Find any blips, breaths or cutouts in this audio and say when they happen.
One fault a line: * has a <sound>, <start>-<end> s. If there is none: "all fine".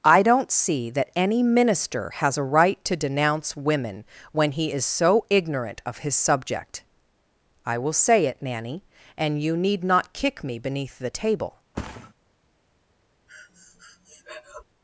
* has a thud, 11.7-12.1 s
* has a breath, 13.3-14.6 s